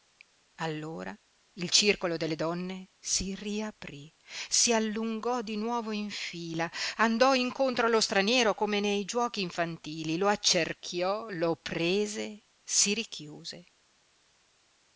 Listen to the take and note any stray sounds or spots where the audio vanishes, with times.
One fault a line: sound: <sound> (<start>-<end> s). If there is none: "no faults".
no faults